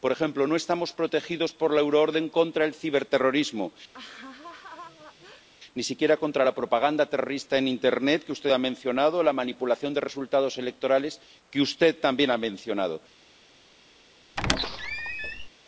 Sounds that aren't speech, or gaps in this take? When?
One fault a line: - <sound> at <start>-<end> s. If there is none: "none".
- laugh at 3.9-5.5 s
- squeak at 14.4-15.5 s